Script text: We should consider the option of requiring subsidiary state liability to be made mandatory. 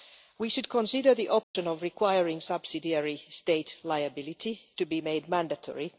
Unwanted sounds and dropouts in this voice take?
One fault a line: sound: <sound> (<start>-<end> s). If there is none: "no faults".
sound: dropout (1.4-1.6 s)